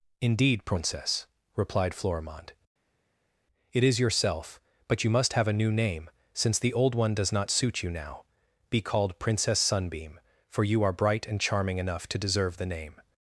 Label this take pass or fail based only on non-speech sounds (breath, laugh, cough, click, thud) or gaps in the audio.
pass